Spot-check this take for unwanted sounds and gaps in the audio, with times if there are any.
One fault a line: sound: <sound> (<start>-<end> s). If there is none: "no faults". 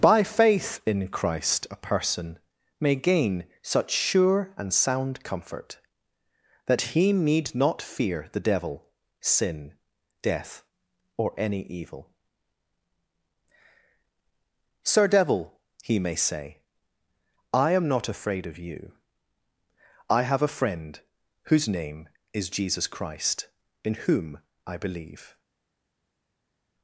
no faults